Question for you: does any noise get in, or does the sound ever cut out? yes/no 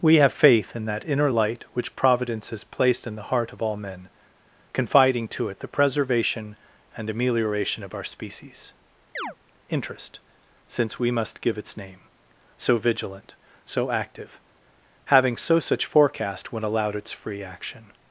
yes